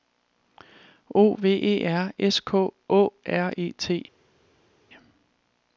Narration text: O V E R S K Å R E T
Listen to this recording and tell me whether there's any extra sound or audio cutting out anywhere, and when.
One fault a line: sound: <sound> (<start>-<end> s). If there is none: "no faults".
no faults